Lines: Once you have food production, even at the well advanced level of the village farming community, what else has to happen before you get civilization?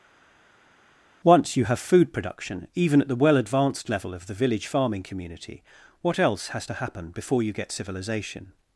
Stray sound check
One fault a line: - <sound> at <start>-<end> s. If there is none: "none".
none